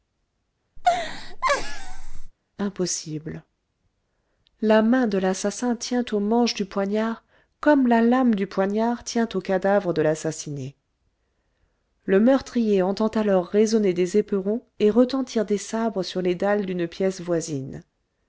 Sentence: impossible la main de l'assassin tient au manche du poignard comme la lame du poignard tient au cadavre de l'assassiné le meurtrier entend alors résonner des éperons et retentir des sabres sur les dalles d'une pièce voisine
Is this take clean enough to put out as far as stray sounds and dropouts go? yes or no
no